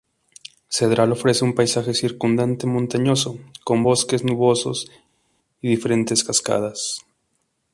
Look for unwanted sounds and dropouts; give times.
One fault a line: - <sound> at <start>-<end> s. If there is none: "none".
none